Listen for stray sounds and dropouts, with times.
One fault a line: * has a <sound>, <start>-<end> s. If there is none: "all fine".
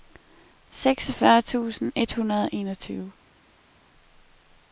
all fine